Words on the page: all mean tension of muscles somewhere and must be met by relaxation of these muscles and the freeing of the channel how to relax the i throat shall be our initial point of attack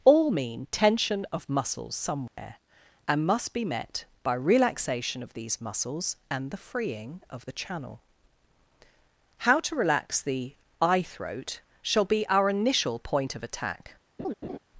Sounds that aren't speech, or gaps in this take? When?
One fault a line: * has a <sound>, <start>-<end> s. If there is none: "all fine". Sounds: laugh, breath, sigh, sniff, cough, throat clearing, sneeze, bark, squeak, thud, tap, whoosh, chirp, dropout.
* has a dropout, 2.3-2.4 s
* has a laugh, 14.2-14.6 s